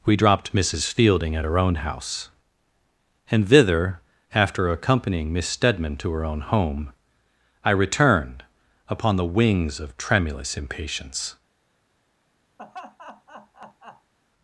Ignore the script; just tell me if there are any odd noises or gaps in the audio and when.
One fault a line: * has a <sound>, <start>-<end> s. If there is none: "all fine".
* has a laugh, 12.6-14.1 s